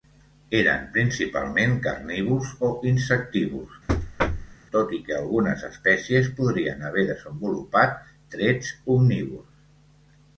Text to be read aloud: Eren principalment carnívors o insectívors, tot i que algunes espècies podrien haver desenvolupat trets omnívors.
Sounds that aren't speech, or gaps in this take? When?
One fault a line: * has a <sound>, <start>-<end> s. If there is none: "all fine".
* has a thud, 3.9-4.6 s